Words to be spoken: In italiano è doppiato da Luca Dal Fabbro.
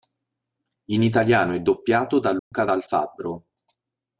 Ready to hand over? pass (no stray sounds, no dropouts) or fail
fail